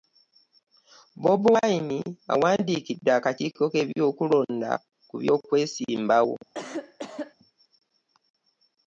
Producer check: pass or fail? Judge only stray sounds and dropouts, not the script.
fail